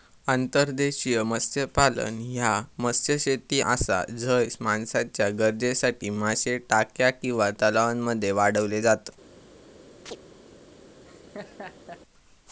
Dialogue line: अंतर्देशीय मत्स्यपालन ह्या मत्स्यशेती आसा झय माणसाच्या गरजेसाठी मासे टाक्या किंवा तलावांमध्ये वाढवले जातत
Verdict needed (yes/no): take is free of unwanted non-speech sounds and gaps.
no